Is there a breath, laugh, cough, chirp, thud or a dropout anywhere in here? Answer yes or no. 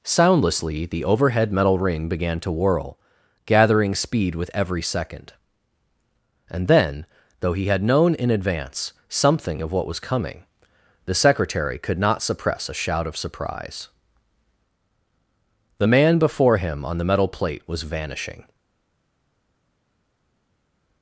no